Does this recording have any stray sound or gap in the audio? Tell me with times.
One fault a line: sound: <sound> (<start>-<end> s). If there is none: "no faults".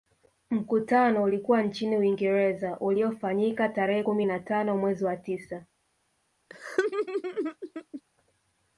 sound: laugh (6.5-8.0 s)